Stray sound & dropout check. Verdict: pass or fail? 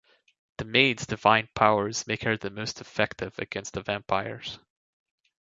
pass